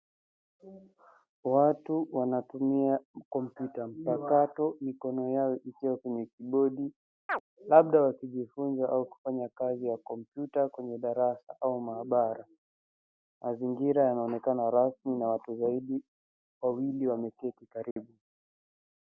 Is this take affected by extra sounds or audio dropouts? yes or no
yes